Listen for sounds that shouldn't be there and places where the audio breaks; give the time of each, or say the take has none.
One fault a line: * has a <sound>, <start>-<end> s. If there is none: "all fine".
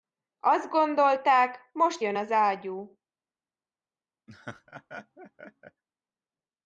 * has a laugh, 4.3-5.8 s